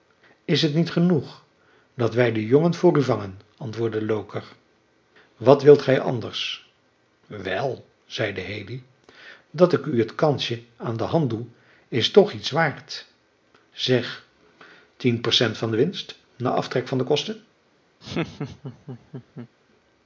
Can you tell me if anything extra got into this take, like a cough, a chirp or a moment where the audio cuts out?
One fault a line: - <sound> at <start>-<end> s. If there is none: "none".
- laugh at 18.0-19.5 s